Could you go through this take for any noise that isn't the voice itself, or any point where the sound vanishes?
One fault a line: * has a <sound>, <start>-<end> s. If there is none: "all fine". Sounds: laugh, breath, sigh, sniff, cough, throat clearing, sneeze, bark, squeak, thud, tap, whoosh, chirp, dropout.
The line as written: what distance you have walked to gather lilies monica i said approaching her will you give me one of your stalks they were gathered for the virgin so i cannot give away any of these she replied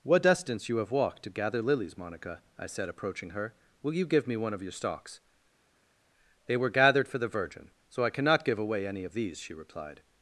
all fine